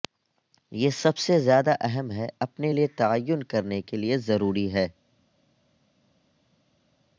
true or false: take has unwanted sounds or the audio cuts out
false